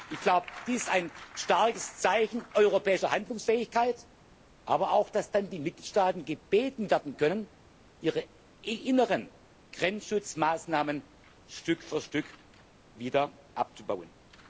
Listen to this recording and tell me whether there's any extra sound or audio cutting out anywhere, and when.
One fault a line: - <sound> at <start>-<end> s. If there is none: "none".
none